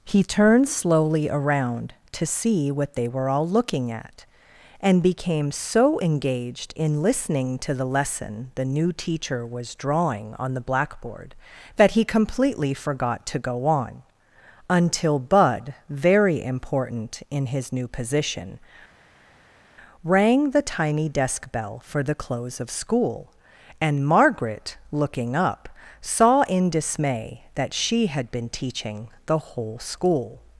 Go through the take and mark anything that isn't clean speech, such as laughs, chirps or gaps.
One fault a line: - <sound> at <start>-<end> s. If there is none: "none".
none